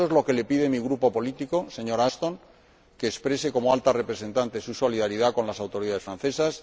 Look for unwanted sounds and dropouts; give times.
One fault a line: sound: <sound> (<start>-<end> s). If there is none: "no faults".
no faults